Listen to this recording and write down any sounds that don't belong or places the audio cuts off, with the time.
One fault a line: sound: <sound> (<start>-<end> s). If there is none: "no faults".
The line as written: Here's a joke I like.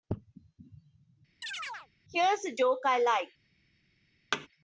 sound: chirp (1.4-1.9 s)
sound: thud (4.3-4.5 s)